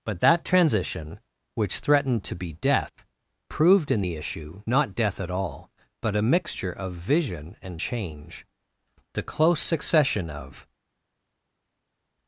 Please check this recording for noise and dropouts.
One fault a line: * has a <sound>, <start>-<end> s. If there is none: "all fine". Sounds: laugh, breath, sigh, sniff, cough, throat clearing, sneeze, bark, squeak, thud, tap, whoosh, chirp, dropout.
all fine